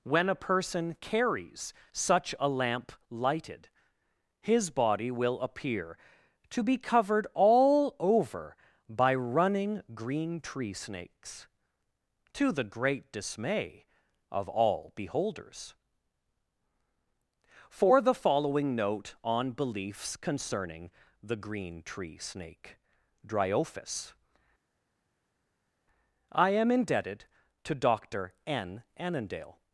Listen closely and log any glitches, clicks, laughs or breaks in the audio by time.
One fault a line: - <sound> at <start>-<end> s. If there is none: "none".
none